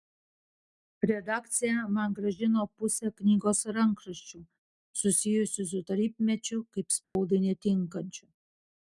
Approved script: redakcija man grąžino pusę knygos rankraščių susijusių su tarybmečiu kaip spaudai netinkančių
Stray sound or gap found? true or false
true